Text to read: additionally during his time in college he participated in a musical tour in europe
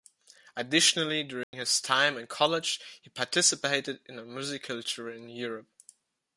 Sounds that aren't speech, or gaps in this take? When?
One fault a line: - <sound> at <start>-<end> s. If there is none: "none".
- dropout at 1.4-1.5 s